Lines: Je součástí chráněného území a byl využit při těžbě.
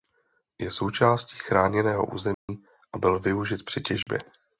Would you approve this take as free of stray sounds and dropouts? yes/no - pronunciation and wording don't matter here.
no